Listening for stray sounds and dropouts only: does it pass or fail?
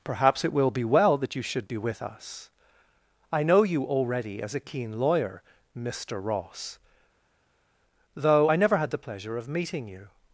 pass